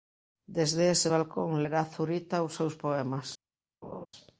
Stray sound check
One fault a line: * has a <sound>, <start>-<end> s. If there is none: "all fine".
* has a laugh, 3.8-4.1 s